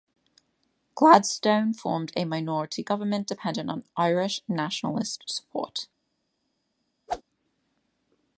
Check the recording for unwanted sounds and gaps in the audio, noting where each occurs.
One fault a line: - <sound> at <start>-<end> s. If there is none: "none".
- whoosh at 7.1-7.2 s